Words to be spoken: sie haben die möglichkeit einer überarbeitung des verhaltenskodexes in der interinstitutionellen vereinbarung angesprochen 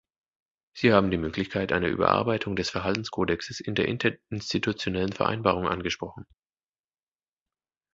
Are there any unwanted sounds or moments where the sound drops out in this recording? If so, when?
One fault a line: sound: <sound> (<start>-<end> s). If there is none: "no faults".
no faults